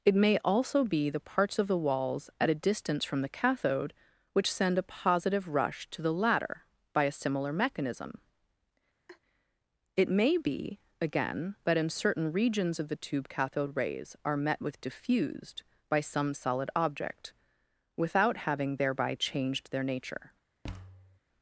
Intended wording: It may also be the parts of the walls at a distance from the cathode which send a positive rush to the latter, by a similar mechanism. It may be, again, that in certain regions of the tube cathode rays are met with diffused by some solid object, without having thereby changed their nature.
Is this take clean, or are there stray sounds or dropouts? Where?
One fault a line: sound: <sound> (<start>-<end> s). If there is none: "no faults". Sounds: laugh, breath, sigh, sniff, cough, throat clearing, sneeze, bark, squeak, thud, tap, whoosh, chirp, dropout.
sound: laugh (9.1-9.2 s)
sound: thud (20.6-21.2 s)